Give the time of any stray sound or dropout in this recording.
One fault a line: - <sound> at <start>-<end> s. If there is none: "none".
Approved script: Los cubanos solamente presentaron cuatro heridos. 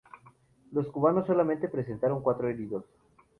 none